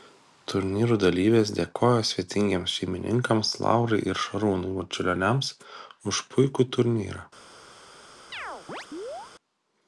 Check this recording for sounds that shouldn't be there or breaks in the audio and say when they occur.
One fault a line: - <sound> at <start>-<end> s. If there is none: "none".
- chirp at 8.3-9.3 s